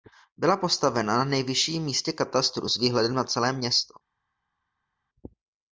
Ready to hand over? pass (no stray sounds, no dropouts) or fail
pass